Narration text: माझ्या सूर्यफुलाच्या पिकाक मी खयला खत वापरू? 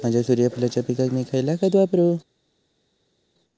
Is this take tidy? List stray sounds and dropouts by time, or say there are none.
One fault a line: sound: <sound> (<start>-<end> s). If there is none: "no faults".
no faults